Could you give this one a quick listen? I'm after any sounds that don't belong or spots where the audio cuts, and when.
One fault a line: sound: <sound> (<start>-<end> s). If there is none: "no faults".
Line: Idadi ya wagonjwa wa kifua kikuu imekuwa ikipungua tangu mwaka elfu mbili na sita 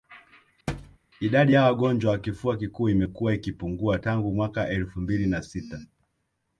sound: thud (0.7-1.0 s)